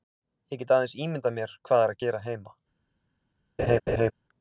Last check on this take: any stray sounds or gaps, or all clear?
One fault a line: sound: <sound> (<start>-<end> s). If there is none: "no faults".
sound: laugh (3.6-4.1 s)